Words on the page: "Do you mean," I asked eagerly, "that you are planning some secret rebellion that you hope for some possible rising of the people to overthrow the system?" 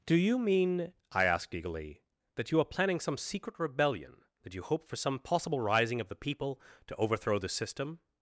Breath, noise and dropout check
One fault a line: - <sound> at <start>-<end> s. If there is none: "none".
none